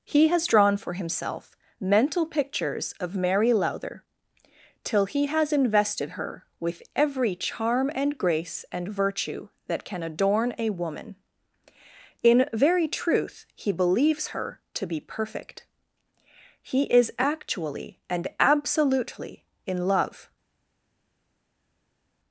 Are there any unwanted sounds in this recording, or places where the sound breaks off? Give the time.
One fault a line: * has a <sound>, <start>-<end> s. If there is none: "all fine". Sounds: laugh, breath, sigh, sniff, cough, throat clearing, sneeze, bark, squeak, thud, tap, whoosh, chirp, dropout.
all fine